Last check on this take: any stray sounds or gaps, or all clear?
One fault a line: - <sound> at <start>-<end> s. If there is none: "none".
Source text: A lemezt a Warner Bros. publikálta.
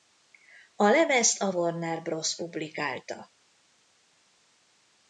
none